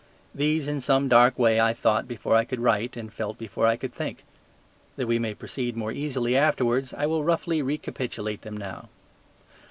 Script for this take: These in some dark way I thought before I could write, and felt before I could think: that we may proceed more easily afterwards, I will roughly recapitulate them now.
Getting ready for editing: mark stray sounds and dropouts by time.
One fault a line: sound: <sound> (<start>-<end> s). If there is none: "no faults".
no faults